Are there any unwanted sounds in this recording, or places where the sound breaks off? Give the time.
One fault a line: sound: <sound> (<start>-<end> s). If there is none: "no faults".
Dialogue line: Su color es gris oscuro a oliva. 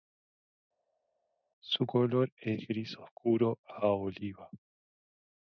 no faults